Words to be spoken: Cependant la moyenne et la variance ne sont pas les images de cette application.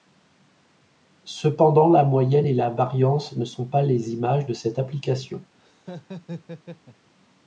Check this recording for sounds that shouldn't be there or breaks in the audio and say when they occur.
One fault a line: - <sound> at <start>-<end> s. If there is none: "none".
- laugh at 5.6-7.1 s